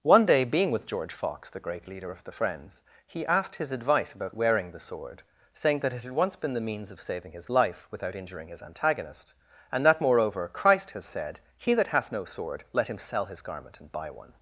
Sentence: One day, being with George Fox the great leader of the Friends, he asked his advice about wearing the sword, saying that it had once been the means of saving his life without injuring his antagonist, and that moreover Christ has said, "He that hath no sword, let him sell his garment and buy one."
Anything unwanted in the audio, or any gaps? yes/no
no